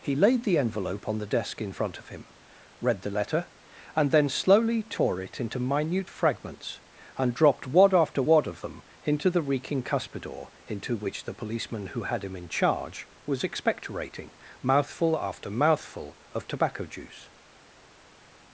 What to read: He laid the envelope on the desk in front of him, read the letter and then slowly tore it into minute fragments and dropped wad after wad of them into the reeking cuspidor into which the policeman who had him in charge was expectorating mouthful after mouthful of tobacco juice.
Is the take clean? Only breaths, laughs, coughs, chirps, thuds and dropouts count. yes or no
yes